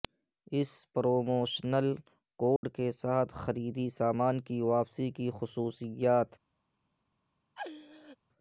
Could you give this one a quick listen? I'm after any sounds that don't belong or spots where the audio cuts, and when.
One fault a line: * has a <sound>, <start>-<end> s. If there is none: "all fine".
* has a dropout, 2.6-2.6 s
* has a laugh, 7.6-8.2 s